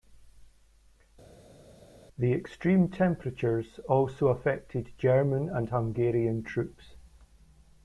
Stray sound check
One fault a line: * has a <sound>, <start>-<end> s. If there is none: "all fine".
all fine